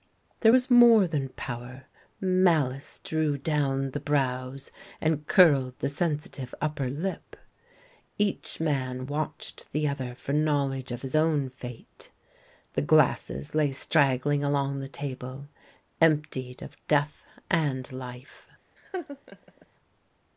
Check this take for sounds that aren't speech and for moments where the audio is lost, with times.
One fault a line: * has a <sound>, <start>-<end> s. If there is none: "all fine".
* has a laugh, 18.8-19.7 s